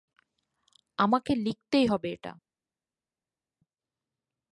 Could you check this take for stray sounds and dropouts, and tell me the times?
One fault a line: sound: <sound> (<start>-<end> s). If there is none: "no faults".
no faults